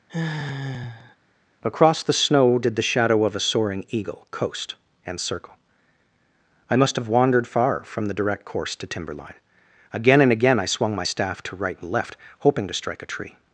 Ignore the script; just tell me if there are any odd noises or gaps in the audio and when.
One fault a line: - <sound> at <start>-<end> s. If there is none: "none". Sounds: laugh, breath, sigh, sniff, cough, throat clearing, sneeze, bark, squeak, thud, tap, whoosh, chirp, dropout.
- sigh at 0.1-1.2 s